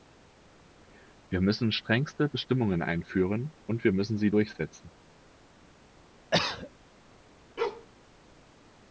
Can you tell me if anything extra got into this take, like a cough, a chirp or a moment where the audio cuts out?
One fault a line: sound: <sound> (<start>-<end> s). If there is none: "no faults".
sound: cough (6.3-6.7 s)
sound: bark (7.6-7.9 s)